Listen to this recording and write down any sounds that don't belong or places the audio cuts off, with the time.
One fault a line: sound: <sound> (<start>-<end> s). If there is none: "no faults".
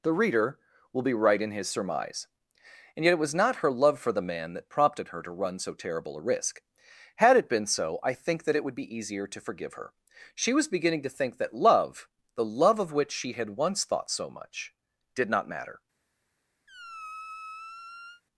sound: squeak (16.7-18.2 s)